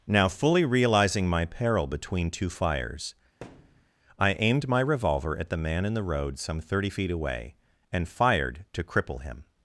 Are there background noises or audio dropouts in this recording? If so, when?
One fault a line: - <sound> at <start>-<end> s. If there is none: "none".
- thud at 3.4-3.9 s